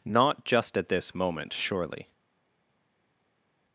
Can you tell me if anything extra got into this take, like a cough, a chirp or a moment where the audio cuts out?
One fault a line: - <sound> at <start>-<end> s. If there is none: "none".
none